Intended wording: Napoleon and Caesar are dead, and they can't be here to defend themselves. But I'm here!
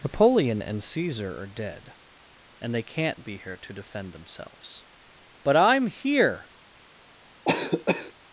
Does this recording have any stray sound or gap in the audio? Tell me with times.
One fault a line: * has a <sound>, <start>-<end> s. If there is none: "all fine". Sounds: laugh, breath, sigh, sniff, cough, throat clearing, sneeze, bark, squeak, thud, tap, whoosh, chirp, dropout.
* has a cough, 7.4-8.1 s